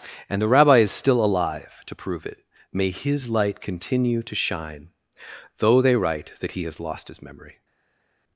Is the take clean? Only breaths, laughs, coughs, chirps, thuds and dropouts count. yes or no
yes